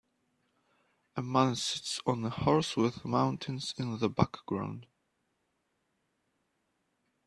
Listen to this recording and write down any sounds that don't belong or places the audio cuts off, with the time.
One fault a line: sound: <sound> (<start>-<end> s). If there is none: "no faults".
no faults